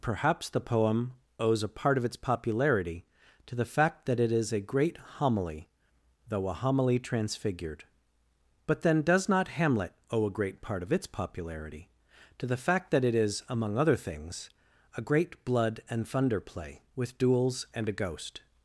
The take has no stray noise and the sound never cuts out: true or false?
true